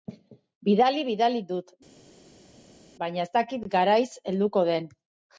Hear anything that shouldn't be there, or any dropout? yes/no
no